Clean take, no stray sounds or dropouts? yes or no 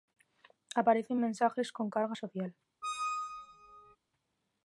no